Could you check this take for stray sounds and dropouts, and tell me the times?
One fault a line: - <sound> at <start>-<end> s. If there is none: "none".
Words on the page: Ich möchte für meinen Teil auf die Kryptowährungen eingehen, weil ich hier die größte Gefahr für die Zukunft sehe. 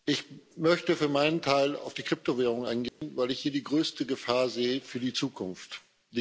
- dropout at 2.9-3.0 s